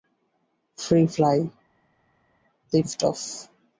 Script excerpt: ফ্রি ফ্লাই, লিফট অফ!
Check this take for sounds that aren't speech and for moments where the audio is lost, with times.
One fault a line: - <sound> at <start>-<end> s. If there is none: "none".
none